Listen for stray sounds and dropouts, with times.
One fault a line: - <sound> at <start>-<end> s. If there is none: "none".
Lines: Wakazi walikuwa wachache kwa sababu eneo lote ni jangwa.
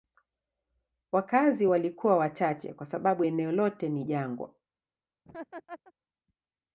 - laugh at 5.2-5.9 s